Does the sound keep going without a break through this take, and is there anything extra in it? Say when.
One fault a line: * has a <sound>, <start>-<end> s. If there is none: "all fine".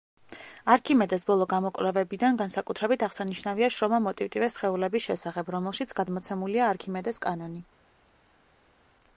all fine